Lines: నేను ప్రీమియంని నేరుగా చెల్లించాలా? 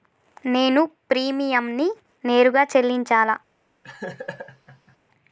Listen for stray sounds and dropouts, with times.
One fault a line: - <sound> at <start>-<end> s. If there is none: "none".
- laugh at 3.8-5.0 s